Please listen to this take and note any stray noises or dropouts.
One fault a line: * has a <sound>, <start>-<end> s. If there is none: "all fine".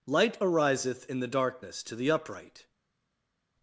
all fine